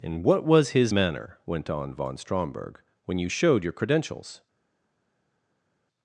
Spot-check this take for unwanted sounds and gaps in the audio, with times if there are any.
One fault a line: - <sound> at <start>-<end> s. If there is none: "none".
none